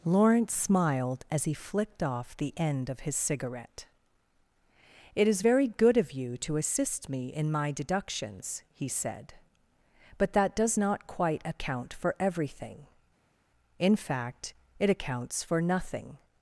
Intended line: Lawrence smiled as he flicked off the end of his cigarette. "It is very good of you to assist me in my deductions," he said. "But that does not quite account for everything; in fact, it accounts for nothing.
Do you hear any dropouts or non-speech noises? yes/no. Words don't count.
no